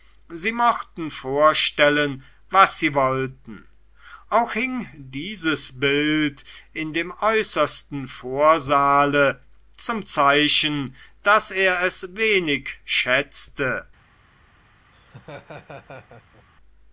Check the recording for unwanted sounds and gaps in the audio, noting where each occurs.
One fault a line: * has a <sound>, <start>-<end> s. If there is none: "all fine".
* has a laugh, 14.9-16.5 s